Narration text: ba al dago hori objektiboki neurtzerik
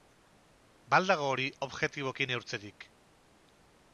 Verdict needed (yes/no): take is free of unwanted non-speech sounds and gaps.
yes